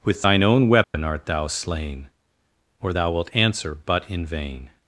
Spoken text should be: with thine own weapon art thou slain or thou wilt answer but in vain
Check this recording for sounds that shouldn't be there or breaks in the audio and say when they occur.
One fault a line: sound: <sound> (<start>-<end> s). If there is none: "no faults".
sound: dropout (0.8-0.9 s)